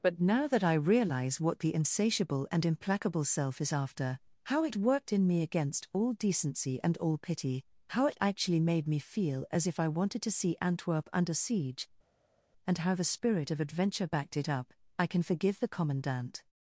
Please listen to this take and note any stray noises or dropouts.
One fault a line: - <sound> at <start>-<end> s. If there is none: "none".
none